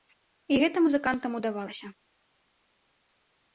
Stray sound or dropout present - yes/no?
no